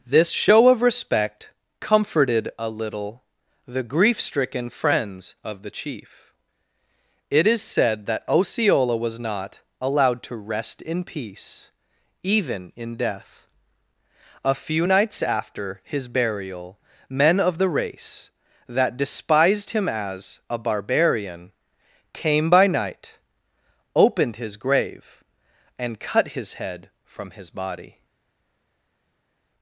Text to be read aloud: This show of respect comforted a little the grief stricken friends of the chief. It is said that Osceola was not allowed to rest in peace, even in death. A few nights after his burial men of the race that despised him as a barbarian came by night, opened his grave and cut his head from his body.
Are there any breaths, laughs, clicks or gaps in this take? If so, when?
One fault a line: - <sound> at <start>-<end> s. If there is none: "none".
none